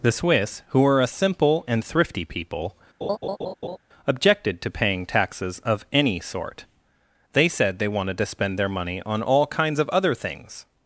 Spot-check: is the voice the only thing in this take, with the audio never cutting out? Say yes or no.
no